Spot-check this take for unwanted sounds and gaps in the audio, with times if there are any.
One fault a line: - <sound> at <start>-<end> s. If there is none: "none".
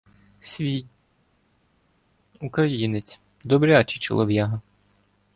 none